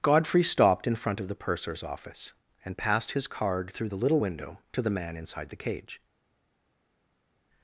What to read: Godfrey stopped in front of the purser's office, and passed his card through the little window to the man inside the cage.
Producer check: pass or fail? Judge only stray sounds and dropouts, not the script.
pass